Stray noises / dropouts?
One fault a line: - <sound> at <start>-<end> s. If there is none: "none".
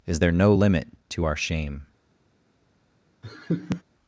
- laugh at 3.2-3.8 s